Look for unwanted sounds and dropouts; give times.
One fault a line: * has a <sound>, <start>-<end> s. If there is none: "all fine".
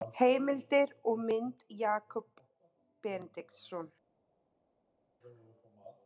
all fine